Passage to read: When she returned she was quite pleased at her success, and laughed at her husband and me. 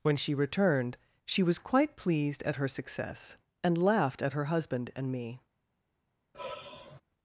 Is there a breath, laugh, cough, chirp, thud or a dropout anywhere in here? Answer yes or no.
yes